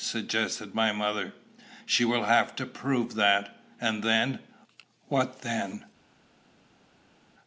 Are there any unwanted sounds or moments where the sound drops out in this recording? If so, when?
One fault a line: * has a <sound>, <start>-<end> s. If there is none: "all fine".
all fine